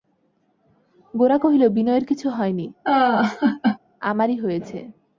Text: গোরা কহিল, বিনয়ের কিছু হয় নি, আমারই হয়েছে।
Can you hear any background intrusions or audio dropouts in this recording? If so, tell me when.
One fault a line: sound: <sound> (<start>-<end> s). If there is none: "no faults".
sound: laugh (2.8-3.8 s)